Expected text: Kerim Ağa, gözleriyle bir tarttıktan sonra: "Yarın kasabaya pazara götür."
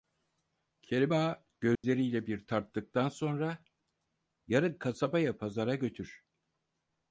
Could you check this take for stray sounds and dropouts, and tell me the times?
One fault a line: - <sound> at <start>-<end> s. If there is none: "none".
- dropout at 1.8-1.8 s